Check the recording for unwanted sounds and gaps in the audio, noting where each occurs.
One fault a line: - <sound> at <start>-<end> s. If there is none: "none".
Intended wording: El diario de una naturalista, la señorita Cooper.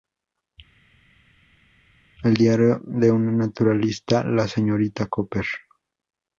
none